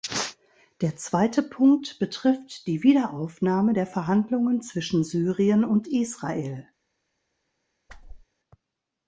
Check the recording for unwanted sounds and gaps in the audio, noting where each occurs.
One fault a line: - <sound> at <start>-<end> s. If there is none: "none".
- whoosh at 7.9-8.3 s